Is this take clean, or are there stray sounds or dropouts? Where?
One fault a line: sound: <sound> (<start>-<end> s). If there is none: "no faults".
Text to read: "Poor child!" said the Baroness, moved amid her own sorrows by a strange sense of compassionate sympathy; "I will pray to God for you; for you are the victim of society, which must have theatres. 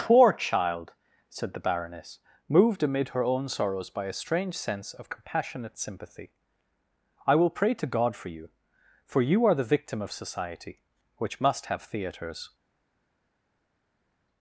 no faults